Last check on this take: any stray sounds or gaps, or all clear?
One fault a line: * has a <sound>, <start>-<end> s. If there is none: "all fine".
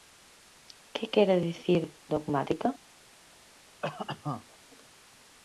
* has a cough, 3.8-4.6 s